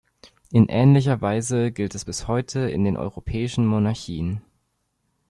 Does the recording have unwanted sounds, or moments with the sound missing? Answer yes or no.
no